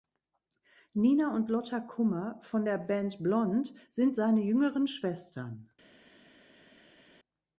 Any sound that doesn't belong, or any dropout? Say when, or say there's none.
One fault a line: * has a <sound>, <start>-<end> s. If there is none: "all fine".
all fine